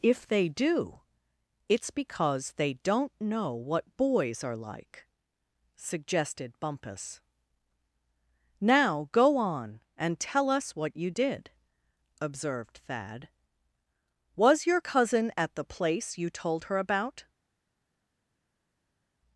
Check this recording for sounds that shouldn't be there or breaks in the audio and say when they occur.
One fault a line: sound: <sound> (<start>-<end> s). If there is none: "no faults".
no faults